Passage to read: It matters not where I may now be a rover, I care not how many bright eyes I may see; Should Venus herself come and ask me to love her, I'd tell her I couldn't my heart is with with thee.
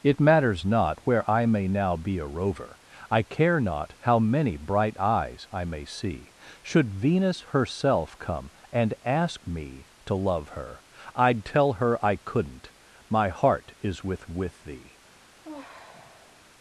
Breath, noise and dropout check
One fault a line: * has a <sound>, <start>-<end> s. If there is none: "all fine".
* has a sigh, 15.4-16.4 s